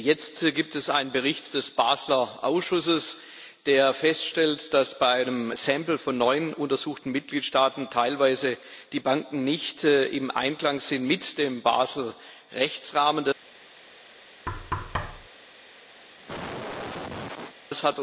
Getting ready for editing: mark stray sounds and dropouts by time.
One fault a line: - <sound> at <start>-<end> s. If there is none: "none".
- thud at 14.5-15.3 s
- cough at 16.0-17.5 s